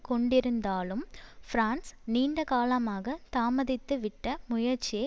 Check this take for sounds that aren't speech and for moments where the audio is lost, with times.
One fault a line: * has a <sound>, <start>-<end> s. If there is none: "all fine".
all fine